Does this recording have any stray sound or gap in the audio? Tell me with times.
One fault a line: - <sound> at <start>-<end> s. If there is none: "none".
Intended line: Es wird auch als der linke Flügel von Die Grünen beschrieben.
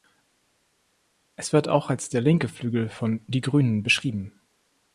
none